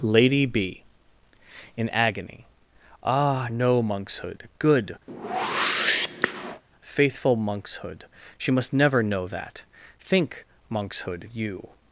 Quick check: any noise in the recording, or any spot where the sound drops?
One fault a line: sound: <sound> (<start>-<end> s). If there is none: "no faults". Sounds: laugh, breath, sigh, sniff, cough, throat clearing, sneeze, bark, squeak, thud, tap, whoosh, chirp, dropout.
sound: whoosh (5.1-6.6 s)